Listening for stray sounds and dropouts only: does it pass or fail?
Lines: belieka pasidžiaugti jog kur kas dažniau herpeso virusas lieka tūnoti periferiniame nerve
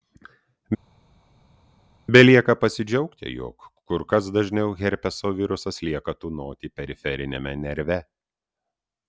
pass